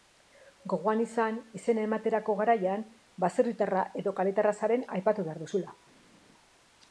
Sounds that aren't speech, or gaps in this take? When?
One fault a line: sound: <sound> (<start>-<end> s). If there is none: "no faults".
no faults